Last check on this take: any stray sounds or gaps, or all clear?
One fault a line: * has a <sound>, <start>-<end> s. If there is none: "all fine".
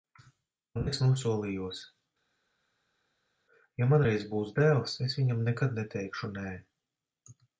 all fine